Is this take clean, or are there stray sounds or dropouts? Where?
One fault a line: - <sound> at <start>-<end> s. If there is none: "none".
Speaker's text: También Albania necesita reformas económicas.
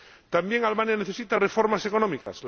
- dropout at 2.2-2.3 s